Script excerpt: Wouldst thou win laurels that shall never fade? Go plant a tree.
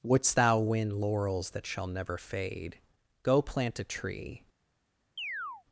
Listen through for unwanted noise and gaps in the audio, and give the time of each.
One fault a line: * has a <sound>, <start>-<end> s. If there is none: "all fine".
* has a chirp, 5.2-5.6 s